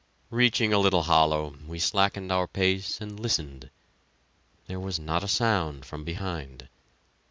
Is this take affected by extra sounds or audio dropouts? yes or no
no